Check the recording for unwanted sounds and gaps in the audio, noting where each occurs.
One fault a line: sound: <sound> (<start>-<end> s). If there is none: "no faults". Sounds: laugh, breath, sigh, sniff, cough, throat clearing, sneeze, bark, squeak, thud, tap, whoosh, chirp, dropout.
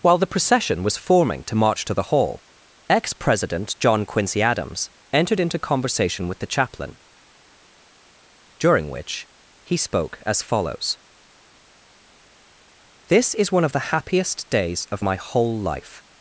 no faults